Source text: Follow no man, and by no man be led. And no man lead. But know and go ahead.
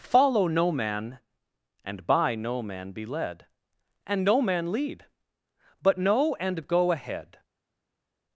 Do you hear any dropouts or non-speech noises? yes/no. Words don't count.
no